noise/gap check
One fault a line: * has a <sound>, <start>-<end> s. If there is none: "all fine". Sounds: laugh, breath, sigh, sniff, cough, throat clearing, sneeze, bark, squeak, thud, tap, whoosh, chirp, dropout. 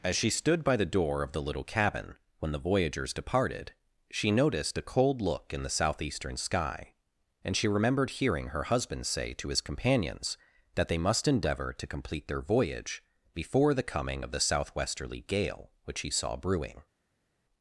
all fine